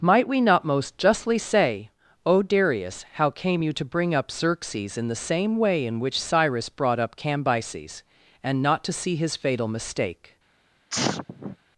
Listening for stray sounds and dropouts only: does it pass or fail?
fail